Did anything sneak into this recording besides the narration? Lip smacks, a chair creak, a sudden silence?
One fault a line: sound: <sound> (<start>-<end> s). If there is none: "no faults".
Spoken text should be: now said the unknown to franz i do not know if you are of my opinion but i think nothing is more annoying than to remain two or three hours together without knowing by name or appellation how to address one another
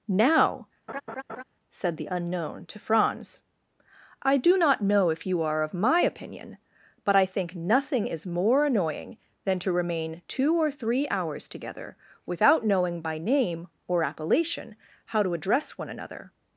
sound: laugh (0.9-1.4 s)